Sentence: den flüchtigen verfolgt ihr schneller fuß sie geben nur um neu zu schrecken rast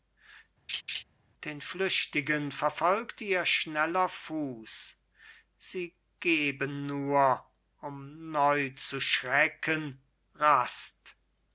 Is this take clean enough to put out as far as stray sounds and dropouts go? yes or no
no